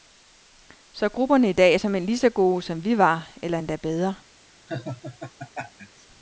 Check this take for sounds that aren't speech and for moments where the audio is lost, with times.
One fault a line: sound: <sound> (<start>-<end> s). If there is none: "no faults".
sound: laugh (4.7-6.1 s)